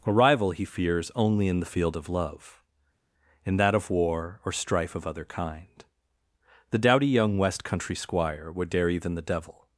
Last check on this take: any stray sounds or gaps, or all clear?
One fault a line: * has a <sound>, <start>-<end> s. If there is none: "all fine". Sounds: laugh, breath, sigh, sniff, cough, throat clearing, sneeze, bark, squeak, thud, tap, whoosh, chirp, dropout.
all fine